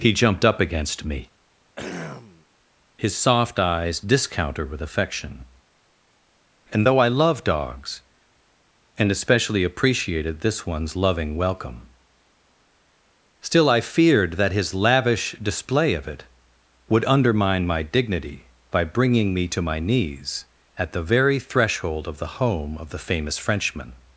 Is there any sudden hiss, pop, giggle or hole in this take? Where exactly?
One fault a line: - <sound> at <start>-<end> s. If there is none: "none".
- throat clearing at 1.8-2.5 s